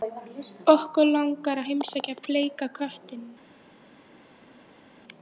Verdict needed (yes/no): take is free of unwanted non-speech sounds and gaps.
yes